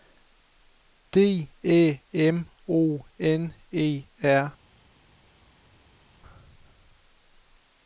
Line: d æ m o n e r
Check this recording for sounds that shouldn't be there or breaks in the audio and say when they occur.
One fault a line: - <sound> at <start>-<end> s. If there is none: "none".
none